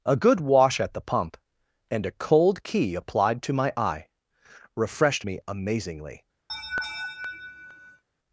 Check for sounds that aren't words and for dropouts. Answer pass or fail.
fail